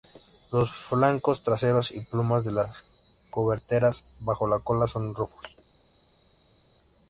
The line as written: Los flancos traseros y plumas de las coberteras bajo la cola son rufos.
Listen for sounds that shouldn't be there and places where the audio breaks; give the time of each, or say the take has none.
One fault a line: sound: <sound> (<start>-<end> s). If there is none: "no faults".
no faults